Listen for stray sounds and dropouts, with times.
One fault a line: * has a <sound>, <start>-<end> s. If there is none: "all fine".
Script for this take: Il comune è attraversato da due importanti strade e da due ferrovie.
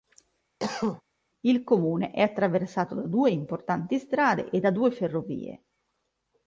* has a cough, 0.6-1.0 s